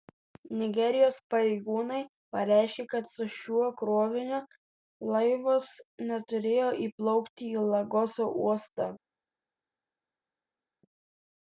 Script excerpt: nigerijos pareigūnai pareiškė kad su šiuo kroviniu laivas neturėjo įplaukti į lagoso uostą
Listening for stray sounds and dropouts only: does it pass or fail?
pass